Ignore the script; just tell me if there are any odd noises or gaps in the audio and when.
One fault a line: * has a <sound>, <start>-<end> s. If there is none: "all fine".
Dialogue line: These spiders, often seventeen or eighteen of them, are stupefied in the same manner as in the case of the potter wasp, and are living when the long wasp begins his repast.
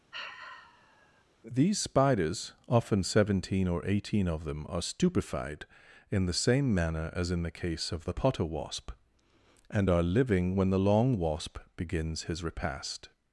* has a sigh, 0.1-1.2 s